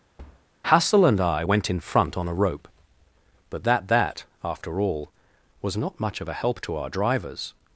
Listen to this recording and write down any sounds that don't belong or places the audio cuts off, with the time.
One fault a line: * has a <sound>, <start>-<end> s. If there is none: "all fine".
* has a thud, 0.2-0.5 s